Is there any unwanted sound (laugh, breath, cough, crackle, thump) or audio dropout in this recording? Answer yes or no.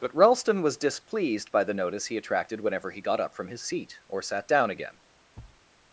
yes